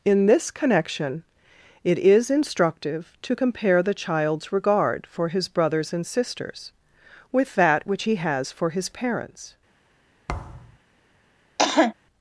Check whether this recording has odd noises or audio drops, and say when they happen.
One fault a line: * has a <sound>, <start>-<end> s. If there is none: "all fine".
* has a thud, 10.3-10.8 s
* has a cough, 11.6-11.9 s